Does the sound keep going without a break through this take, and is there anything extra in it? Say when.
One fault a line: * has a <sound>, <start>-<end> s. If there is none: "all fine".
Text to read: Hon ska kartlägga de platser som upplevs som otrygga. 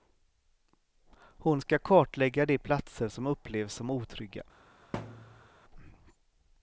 * has a thud, 4.9-5.5 s